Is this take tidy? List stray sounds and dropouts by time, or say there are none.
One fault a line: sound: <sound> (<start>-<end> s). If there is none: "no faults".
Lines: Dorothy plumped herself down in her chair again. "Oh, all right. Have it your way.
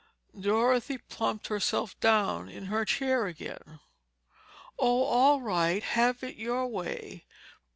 no faults